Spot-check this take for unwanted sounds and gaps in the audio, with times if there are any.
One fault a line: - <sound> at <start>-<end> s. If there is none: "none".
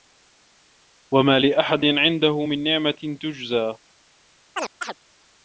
- chirp at 4.5-5.0 s